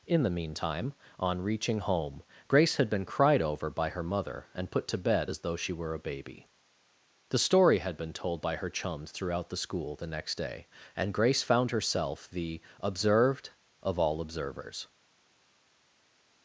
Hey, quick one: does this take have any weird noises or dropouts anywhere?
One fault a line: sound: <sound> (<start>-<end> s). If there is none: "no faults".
no faults